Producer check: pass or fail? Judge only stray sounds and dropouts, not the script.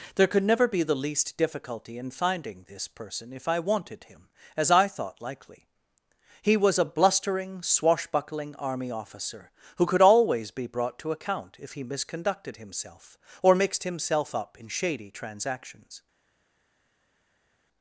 pass